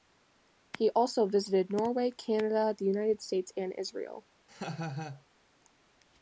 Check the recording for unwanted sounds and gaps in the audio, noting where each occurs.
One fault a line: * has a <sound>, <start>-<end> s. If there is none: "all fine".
* has a laugh, 4.5-5.3 s